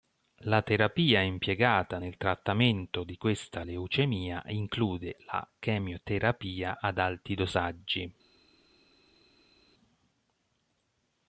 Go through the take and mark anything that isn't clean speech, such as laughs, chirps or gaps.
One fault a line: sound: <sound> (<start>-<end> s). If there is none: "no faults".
no faults